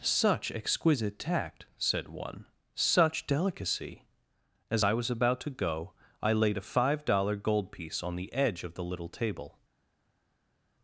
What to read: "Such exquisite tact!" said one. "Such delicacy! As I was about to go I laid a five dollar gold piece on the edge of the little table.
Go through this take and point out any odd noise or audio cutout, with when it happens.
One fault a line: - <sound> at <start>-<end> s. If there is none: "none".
none